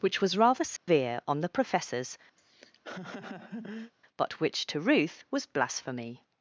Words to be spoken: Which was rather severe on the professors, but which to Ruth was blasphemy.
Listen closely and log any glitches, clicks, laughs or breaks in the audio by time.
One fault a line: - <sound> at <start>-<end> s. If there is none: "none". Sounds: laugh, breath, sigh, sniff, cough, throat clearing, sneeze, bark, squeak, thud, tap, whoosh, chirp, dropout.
- dropout at 0.8-0.9 s
- laugh at 2.4-3.9 s